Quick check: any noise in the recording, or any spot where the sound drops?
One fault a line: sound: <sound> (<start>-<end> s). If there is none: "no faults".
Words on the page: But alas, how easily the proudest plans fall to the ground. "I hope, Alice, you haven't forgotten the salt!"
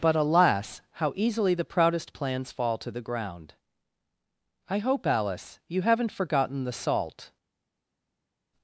no faults